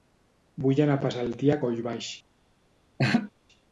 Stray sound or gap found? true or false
true